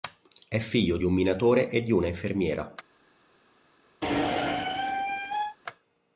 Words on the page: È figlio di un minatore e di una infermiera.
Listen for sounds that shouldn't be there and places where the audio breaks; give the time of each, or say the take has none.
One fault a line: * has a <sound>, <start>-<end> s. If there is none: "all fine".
* has a squeak, 4.0-5.6 s